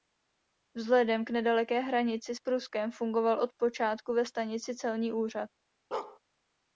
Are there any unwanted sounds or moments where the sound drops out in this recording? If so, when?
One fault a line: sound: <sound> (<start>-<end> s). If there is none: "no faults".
sound: bark (5.9-6.2 s)